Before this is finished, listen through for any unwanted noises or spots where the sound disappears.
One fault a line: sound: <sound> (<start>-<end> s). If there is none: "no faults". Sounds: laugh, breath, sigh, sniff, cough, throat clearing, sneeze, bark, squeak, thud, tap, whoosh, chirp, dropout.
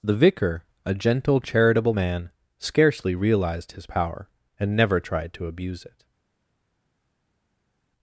no faults